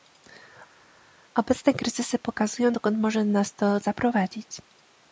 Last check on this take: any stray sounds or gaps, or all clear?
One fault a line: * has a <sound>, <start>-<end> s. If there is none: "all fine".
all fine